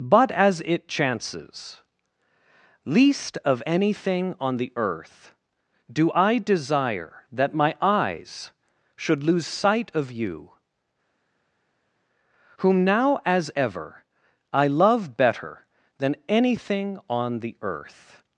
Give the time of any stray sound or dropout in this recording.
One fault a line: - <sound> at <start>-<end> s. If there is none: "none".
none